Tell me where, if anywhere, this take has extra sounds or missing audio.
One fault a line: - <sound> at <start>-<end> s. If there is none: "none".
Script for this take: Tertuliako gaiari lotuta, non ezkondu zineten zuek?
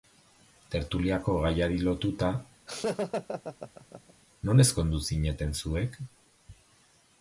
- laugh at 2.7-4.1 s